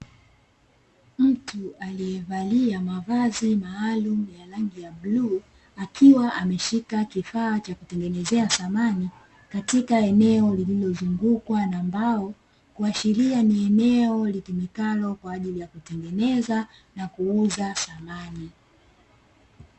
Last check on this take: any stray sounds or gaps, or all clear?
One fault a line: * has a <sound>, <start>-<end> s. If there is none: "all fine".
all fine